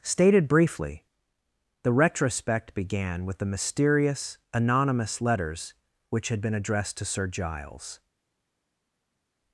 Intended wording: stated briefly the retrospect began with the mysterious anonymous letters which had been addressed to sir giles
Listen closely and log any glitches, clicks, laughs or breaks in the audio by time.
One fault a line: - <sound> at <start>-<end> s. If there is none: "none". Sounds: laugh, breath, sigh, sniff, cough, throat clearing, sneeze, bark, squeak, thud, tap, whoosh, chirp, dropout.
none